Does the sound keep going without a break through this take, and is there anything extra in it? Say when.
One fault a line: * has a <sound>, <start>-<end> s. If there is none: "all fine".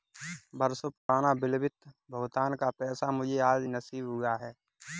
* has a dropout, 1.0-1.1 s